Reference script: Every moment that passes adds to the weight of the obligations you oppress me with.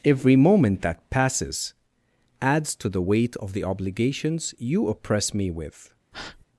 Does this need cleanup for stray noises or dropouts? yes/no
yes